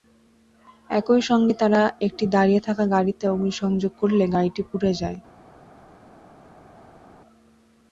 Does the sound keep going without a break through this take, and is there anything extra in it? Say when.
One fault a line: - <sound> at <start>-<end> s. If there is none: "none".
none